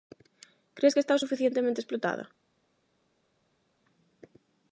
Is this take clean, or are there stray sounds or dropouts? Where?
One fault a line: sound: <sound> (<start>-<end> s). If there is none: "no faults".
no faults